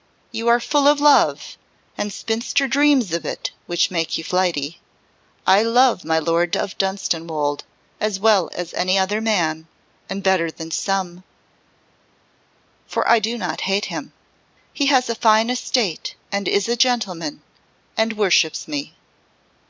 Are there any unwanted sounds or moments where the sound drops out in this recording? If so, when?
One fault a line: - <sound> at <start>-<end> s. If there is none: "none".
none